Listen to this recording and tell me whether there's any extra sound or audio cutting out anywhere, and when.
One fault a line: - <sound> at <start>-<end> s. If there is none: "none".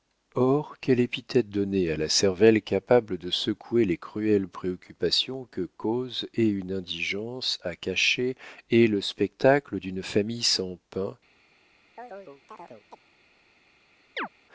- chirp at 12.0-13.0 s
- chirp at 14.2-14.3 s